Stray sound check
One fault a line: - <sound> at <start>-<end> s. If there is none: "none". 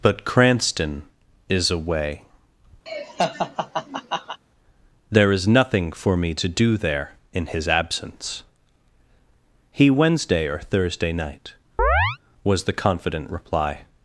- laugh at 2.9-4.4 s
- chirp at 11.8-12.2 s